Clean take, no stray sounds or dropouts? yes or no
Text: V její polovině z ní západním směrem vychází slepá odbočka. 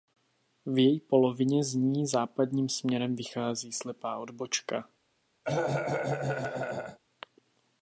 no